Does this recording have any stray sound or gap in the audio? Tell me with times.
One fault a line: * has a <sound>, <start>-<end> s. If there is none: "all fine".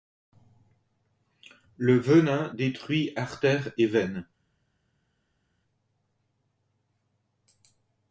all fine